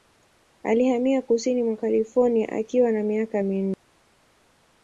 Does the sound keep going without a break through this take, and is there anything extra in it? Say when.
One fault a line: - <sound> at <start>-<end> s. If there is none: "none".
none